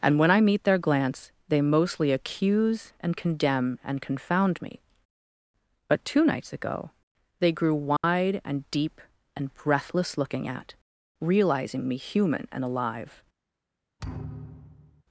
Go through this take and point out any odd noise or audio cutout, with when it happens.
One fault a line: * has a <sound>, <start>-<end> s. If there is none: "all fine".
* has a dropout, 8.0-8.0 s
* has a thud, 14.0-15.0 s